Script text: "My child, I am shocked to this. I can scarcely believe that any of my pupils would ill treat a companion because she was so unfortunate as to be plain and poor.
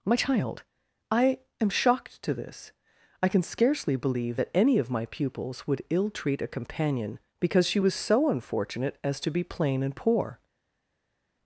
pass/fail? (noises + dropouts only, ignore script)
pass